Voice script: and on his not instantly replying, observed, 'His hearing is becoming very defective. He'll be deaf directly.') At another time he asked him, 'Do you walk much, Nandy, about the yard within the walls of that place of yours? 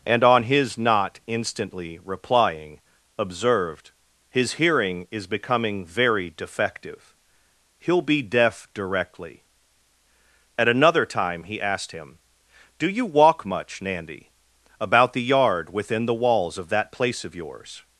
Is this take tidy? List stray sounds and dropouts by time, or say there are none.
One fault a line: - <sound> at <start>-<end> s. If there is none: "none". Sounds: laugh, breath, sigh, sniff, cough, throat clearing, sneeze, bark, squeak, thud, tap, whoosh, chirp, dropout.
none